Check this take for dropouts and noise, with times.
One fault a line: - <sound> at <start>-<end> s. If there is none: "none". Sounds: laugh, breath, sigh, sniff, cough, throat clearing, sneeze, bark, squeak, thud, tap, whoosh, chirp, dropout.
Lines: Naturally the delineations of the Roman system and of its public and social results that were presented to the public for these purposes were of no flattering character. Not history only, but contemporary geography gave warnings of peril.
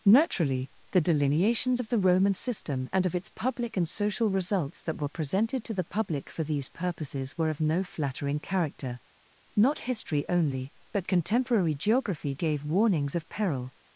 none